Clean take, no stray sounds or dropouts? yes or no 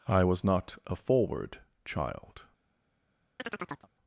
no